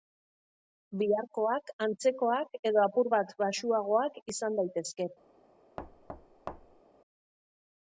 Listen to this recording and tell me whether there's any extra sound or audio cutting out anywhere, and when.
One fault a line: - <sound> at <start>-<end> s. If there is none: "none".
- thud at 5.8-6.8 s